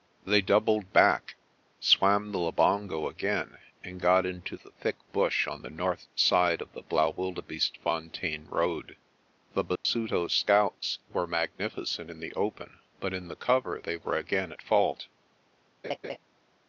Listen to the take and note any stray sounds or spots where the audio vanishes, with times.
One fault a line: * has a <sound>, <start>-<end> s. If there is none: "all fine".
* has a dropout, 9.8-9.8 s
* has a laugh, 15.8-16.2 s